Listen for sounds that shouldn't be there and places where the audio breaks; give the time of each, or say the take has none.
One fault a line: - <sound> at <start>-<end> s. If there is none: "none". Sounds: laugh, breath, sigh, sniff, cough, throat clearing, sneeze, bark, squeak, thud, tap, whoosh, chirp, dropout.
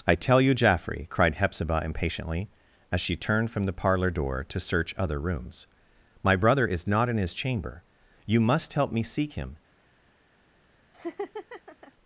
- laugh at 10.9-11.9 s